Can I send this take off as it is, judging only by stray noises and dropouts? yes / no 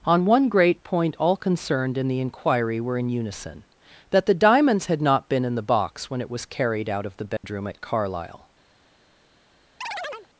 no